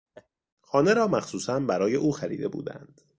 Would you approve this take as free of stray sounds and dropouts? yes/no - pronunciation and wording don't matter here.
no